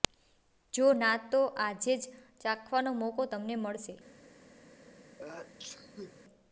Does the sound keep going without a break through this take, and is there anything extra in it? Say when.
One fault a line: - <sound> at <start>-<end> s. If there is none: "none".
- sneeze at 5.2-6.2 s